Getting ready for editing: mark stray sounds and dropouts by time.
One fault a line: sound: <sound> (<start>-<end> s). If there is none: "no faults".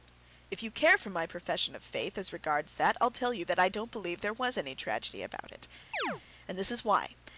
sound: chirp (5.9-6.2 s)